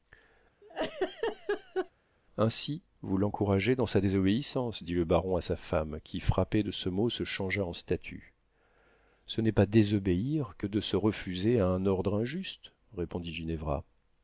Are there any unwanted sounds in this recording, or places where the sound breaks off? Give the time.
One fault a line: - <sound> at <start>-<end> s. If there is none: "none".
- laugh at 0.6-1.9 s